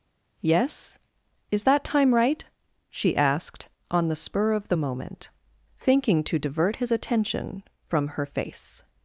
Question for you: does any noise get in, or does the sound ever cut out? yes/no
no